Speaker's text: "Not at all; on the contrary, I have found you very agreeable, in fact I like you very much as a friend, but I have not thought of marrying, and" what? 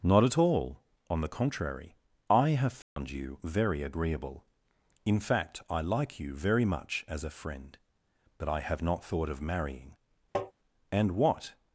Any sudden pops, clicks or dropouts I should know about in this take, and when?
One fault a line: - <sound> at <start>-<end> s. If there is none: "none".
- dropout at 2.8-3.0 s
- tap at 10.3-10.5 s